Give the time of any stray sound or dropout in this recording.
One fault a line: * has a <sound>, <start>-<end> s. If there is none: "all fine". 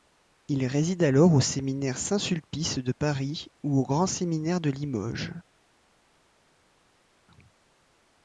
all fine